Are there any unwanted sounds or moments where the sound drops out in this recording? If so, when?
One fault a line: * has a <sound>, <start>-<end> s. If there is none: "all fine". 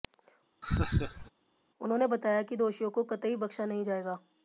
* has a laugh, 0.6-1.3 s